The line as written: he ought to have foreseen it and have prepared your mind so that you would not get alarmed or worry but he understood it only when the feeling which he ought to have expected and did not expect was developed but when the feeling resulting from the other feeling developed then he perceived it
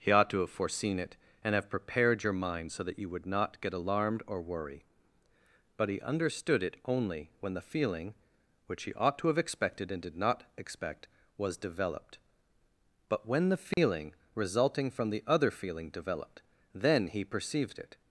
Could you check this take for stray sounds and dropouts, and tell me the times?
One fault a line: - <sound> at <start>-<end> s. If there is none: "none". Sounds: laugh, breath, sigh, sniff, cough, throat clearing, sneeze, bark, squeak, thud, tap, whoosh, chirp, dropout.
- dropout at 13.7-13.8 s